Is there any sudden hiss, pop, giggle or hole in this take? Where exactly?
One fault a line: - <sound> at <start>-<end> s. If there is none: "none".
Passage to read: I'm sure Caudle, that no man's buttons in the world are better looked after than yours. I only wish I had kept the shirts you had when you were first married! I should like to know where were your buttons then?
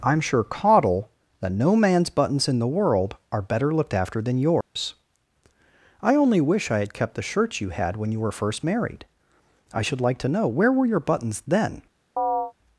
- dropout at 4.6-4.8 s
- chirp at 12.2-12.5 s